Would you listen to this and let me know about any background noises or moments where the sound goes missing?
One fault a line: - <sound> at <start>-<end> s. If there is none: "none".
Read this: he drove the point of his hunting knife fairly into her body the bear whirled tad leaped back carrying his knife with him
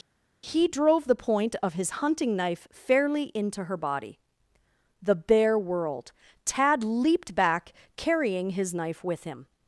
none